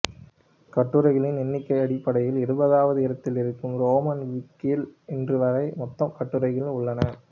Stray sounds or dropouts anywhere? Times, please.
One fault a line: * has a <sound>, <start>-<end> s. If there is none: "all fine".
all fine